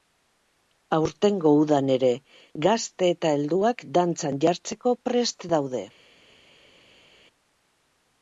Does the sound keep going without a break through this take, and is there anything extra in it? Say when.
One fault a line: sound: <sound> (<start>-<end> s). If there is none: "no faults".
no faults